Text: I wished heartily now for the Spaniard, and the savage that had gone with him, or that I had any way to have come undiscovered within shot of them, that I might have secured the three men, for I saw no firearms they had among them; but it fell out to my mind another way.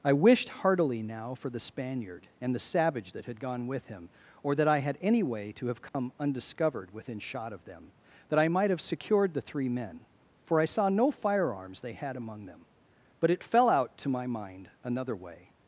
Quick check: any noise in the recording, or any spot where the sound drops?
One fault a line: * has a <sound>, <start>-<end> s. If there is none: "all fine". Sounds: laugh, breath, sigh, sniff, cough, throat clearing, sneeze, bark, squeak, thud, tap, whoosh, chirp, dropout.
* has a dropout, 5.9-5.9 s